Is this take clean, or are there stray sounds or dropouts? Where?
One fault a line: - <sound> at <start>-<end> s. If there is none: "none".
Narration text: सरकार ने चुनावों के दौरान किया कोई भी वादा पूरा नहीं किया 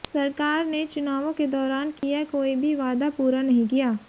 - dropout at 2.0-2.0 s